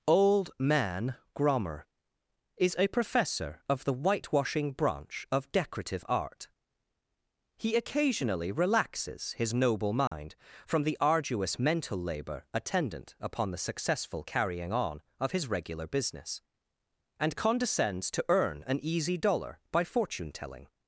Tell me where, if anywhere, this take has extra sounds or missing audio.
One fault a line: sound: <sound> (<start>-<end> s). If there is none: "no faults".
sound: dropout (10.1-10.1 s)